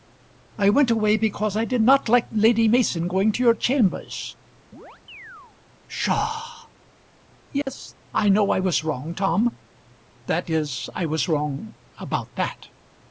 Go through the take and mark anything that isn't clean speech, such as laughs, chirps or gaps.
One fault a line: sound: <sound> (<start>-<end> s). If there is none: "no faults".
sound: chirp (4.7-5.6 s)
sound: dropout (7.6-7.7 s)